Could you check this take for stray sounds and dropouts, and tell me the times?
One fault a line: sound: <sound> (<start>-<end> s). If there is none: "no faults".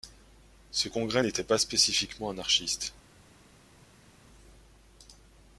no faults